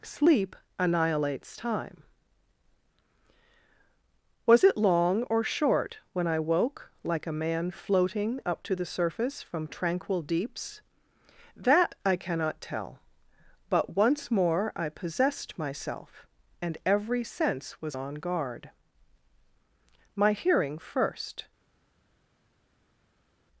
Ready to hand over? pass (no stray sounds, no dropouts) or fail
pass